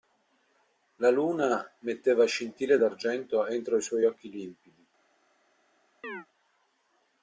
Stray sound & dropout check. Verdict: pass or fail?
fail